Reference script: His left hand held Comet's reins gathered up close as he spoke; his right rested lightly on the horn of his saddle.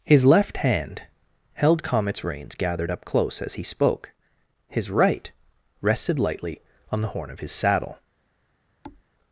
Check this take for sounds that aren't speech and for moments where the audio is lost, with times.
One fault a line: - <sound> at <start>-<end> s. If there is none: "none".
- thud at 8.8-9.0 s